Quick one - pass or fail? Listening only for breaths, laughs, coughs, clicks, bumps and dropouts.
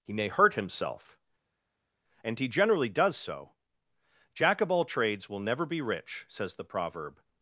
pass